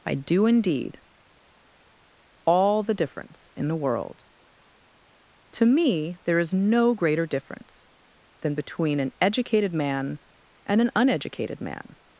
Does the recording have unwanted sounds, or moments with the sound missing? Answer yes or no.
no